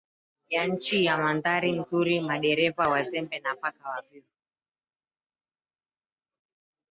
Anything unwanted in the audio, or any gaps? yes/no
no